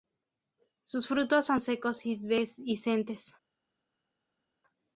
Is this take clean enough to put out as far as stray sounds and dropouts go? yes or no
yes